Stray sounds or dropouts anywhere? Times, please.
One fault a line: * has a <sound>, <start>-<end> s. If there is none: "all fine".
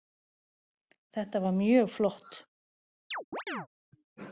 * has a chirp, 3.1-3.7 s